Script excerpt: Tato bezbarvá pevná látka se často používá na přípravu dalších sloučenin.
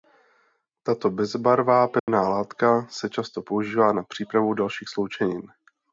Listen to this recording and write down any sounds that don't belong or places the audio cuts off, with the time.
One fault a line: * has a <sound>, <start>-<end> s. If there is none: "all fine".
* has a dropout, 2.0-2.1 s